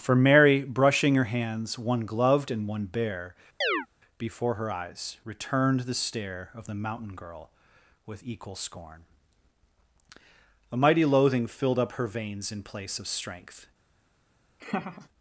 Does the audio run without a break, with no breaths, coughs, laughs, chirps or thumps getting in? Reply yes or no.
no